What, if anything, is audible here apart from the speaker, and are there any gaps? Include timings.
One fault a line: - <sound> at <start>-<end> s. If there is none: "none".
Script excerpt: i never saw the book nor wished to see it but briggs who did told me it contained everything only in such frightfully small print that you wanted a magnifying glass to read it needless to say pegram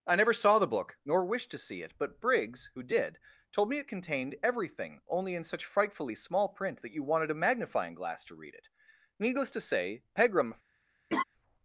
- laugh at 11.1-11.2 s